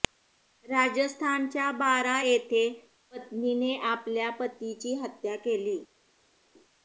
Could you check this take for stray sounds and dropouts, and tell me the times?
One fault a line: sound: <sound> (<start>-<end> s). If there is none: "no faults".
no faults